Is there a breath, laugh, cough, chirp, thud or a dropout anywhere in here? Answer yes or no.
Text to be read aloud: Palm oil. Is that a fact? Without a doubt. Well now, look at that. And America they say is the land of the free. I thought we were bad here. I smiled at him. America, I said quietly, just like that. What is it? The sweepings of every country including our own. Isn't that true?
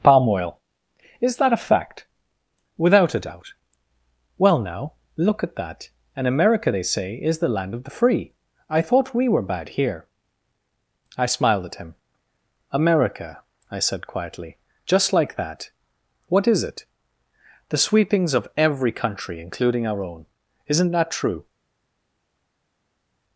no